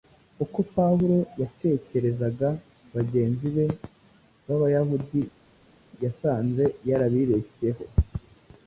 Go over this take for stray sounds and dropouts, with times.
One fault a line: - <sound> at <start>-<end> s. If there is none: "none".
none